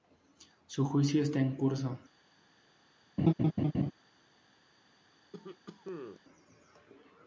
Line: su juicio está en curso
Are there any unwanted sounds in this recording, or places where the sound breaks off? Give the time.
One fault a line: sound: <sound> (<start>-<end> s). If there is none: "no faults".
sound: laugh (3.2-3.9 s)
sound: cough (5.3-6.2 s)